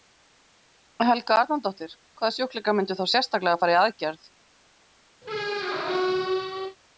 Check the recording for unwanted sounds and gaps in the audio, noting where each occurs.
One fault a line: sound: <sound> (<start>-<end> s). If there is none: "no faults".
sound: squeak (5.2-6.8 s)